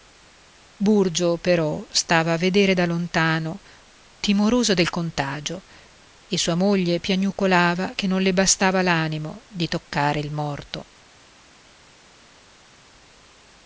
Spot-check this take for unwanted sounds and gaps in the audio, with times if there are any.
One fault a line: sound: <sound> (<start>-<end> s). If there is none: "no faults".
no faults